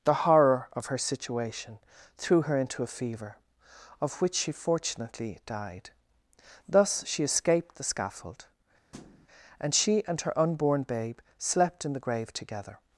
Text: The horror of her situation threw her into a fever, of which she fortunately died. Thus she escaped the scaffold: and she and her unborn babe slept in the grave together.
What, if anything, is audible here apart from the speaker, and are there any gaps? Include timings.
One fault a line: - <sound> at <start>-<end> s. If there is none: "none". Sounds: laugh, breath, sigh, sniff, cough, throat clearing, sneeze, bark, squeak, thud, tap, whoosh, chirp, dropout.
- thud at 8.9-9.3 s